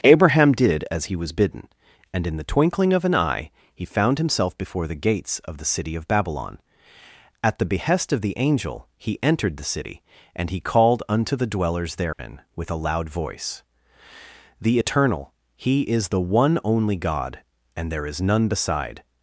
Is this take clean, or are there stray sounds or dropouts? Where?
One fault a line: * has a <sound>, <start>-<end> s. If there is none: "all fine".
* has a dropout, 12.1-12.2 s